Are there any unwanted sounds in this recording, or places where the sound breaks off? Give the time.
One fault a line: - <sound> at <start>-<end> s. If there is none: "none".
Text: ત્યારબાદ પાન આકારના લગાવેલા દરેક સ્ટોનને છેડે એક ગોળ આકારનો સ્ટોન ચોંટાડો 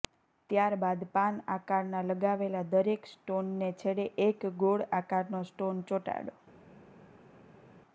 none